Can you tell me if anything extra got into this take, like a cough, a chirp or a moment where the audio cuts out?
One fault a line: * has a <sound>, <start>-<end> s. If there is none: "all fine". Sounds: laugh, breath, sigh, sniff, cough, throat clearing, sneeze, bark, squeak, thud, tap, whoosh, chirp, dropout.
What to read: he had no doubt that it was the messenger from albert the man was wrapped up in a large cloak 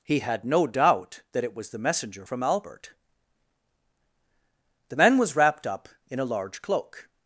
all fine